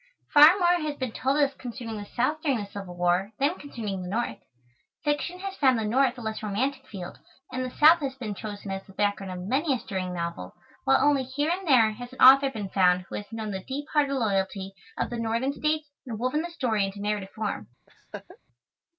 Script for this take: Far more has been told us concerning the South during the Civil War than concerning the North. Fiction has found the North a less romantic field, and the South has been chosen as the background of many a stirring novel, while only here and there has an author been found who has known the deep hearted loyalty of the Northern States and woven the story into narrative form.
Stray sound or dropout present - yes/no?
yes